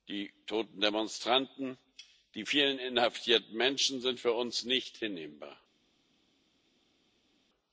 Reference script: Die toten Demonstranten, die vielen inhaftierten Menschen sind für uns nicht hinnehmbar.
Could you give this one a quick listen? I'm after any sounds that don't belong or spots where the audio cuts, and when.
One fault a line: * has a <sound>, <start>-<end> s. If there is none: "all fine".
all fine